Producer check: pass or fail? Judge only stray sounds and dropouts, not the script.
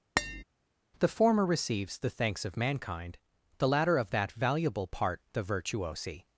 fail